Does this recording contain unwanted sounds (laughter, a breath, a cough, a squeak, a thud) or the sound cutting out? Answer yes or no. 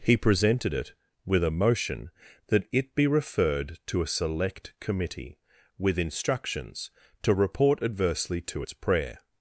no